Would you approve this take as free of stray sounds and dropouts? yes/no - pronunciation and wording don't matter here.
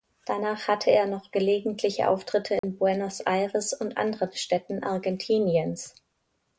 no